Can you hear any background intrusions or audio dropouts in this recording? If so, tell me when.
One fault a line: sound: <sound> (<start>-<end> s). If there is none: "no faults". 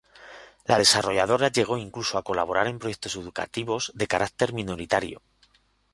no faults